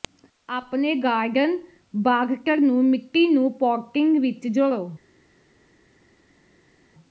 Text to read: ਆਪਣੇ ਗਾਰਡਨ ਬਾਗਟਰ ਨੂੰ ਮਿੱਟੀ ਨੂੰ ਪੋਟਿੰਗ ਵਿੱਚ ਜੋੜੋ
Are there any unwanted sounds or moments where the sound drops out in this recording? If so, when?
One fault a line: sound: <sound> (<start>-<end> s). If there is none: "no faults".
no faults